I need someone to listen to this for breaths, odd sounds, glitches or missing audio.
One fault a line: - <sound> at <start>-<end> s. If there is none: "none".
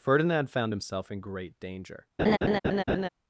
- laugh at 2.2-3.1 s